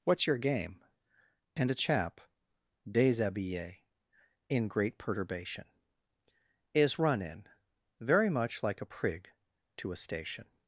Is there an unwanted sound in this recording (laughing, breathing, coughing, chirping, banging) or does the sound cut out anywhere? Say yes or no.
no